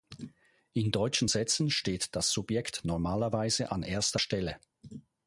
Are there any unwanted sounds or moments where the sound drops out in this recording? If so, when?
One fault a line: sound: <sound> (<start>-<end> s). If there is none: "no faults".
no faults